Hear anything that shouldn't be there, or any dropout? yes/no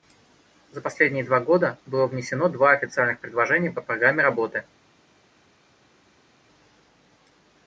no